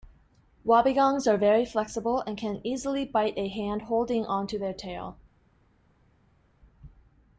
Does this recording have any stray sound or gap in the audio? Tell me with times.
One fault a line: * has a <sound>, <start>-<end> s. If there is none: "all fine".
all fine